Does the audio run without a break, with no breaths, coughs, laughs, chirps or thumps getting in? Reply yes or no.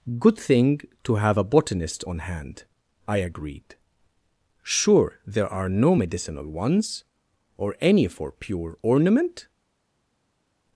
yes